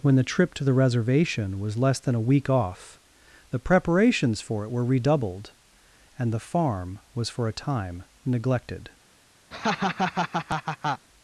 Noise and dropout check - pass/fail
fail